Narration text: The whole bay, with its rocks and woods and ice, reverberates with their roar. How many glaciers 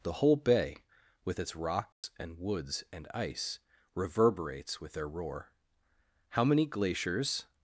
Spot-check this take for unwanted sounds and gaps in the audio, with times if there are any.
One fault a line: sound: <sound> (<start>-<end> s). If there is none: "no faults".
sound: dropout (1.9-2.0 s)